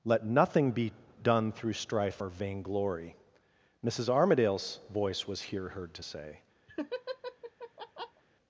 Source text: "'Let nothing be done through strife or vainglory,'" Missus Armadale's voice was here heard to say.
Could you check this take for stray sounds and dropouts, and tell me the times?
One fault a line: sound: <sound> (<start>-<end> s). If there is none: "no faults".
sound: laugh (6.7-8.2 s)